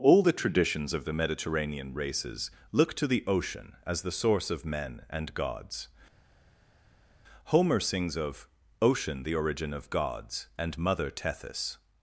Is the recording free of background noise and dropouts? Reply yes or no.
yes